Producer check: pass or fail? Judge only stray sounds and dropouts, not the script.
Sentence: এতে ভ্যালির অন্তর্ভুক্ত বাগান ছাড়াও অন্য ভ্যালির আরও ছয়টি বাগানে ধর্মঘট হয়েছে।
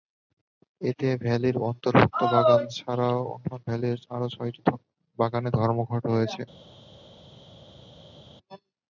pass